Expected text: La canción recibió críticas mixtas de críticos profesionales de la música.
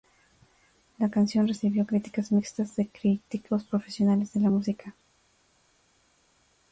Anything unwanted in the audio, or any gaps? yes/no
no